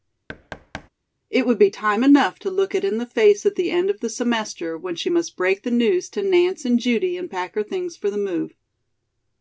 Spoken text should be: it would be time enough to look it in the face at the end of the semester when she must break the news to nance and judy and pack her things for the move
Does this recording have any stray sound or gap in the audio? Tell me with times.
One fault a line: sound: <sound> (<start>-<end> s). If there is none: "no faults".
sound: thud (0.3-0.9 s)